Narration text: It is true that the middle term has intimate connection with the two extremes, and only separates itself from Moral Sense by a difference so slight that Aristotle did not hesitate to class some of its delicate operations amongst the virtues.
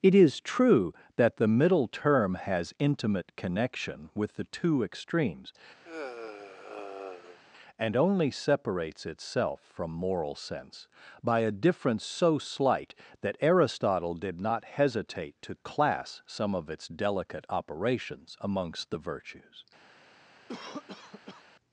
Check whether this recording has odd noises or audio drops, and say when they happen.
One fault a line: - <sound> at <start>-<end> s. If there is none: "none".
- sigh at 5.8-7.4 s
- cough at 20.5-21.4 s